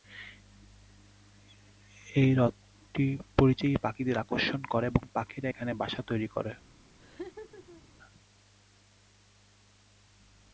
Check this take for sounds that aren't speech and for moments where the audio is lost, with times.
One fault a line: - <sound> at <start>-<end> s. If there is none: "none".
- laugh at 7.0-7.8 s